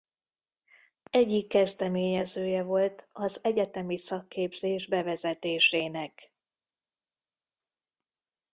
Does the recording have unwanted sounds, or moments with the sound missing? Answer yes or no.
no